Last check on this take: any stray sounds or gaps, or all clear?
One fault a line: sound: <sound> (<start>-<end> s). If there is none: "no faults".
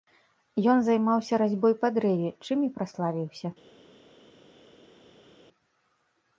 no faults